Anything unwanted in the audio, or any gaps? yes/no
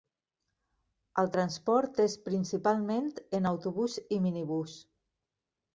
no